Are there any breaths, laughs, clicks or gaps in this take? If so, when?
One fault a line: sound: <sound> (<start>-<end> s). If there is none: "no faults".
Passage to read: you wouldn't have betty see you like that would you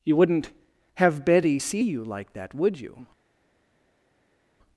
no faults